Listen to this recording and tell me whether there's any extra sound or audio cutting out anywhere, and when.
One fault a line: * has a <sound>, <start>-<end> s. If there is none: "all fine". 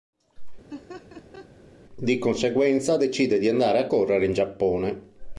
* has a laugh, 0.7-1.5 s